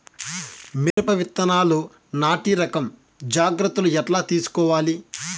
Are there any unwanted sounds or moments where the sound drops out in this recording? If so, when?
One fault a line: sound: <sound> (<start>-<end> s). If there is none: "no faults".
sound: dropout (0.9-1.0 s)